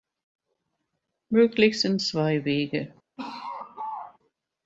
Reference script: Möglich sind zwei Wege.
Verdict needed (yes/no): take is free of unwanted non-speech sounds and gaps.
no